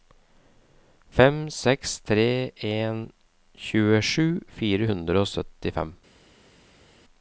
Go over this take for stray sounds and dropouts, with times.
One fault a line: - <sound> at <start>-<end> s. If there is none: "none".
none